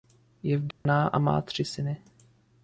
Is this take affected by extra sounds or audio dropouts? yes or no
yes